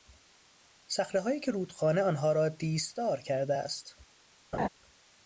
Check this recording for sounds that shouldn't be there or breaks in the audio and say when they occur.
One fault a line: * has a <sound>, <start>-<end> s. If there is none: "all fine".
* has a laugh, 4.5-4.7 s